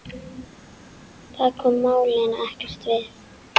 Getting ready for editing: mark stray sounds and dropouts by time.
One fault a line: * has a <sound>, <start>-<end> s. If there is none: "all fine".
all fine